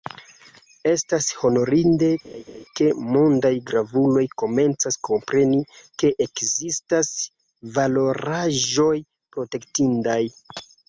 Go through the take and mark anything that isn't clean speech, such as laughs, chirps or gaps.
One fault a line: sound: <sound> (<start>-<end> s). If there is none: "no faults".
sound: laugh (2.2-2.7 s)